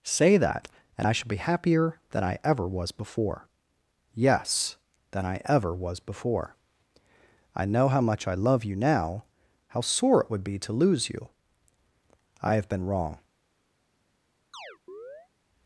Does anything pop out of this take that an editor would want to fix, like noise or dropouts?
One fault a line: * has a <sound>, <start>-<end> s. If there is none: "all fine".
* has a chirp, 14.5-15.3 s